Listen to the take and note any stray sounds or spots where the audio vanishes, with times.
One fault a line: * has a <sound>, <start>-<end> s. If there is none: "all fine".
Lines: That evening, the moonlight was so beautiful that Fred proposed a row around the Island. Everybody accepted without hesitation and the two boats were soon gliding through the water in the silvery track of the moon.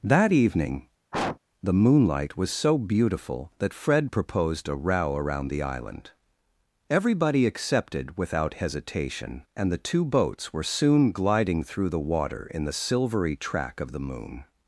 * has a sniff, 1.1-1.4 s